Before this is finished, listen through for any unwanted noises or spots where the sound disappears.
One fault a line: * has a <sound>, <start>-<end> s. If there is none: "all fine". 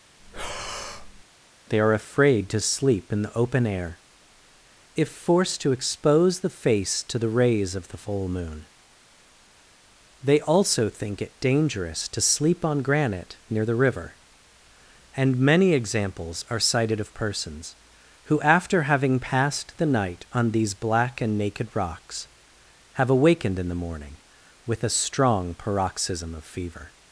* has a breath, 0.2-1.2 s